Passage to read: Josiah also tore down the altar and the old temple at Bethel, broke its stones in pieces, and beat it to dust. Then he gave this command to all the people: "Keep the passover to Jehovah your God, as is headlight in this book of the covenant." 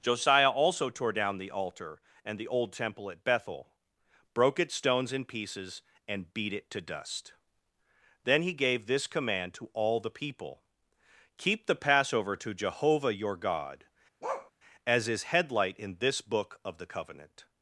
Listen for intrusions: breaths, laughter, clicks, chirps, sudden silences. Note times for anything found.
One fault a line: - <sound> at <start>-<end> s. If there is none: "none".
- bark at 14.2-14.5 s